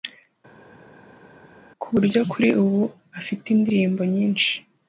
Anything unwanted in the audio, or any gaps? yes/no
no